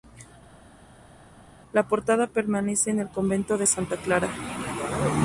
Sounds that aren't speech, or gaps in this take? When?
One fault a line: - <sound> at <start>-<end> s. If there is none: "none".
none